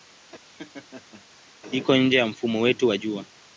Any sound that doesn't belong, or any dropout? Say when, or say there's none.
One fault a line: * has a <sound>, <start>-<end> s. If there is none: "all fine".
* has a laugh, 0.5-1.2 s